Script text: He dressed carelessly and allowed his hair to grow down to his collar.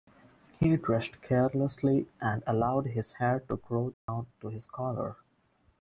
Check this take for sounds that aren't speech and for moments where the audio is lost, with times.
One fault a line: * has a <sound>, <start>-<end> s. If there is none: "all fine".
* has a dropout, 3.9-4.1 s